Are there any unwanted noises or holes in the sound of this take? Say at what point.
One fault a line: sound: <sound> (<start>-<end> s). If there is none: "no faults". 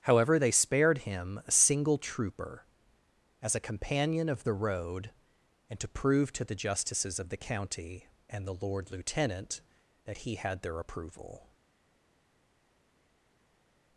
no faults